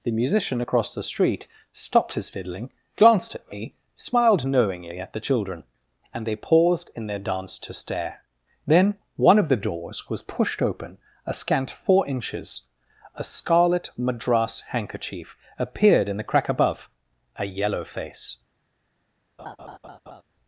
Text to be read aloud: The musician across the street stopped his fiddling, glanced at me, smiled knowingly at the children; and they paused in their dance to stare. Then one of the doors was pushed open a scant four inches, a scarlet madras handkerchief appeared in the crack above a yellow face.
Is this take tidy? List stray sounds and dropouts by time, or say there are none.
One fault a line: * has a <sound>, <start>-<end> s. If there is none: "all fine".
* has a laugh, 19.4-20.2 s